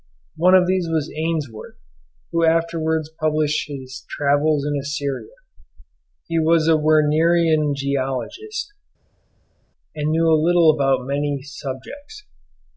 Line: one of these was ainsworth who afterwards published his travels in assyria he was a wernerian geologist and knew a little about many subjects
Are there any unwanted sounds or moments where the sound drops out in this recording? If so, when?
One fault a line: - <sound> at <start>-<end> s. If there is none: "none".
none